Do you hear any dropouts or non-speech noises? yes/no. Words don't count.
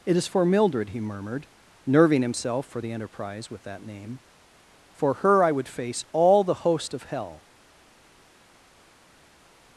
no